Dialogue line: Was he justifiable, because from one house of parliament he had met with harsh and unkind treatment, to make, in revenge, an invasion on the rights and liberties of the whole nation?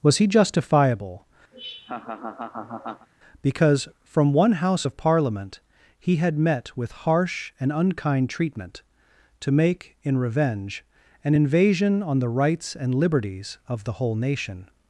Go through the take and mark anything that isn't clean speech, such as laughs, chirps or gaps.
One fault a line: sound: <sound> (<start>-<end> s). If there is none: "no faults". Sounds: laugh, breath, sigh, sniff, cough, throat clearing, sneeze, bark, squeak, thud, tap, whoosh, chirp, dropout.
sound: laugh (1.5-3.1 s)